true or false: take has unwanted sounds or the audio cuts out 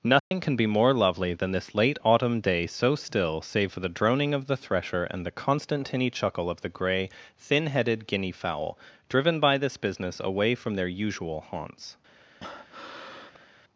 true